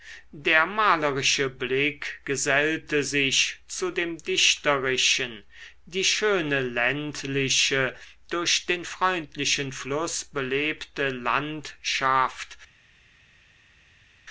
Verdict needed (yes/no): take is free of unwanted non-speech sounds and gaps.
yes